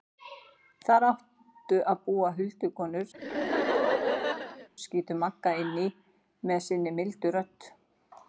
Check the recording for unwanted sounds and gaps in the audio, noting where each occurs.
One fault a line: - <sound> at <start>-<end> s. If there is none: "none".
- laugh at 3.1-4.7 s